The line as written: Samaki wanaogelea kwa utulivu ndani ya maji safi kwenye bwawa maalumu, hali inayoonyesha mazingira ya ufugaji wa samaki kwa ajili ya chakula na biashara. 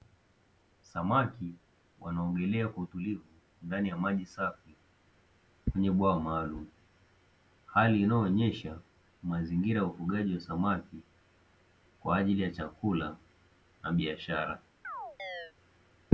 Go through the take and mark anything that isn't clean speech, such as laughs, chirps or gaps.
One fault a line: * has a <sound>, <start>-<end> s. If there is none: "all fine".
* has a chirp, 14.8-15.5 s